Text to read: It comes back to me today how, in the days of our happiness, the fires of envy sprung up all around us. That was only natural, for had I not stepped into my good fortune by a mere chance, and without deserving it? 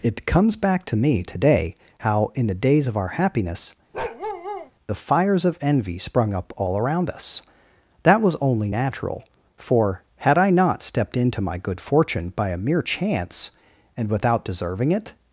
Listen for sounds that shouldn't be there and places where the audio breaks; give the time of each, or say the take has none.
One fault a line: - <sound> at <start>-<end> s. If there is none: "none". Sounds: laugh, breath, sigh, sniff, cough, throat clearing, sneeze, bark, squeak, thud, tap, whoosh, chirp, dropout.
- bark at 3.9-4.7 s